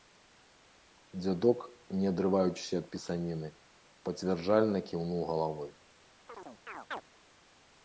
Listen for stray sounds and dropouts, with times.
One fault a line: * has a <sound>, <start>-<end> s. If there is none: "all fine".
* has a chirp, 6.3-7.0 s